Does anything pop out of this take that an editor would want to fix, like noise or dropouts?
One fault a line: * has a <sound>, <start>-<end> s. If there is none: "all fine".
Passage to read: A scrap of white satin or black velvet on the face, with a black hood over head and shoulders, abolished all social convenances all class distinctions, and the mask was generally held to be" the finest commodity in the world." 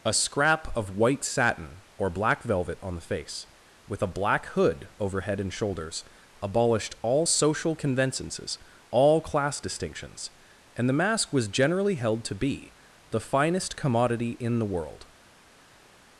all fine